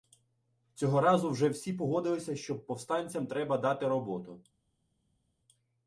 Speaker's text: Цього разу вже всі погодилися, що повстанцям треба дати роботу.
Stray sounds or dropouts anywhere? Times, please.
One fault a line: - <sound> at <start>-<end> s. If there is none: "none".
none